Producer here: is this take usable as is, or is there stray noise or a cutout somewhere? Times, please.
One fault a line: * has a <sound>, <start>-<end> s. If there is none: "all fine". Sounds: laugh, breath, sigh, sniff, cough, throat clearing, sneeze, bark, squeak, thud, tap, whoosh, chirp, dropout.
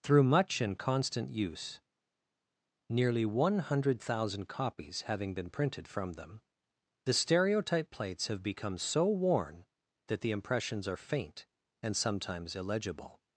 all fine